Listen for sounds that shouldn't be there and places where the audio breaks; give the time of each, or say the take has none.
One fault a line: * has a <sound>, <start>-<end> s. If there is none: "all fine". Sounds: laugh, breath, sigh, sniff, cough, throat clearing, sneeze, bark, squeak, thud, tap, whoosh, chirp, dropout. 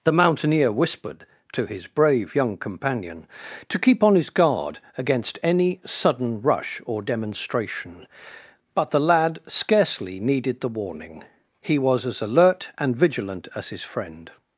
all fine